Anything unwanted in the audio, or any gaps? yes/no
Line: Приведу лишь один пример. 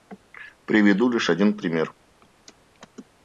no